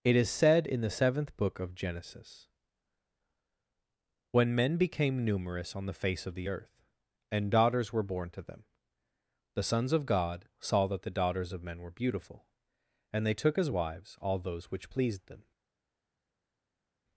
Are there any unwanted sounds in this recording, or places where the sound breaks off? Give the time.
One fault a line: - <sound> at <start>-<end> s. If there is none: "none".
none